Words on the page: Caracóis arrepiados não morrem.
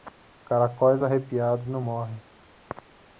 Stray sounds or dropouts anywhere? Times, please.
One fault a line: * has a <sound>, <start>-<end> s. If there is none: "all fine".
all fine